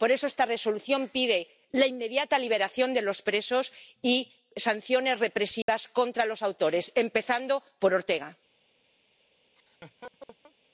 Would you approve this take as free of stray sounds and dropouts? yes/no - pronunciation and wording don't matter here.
no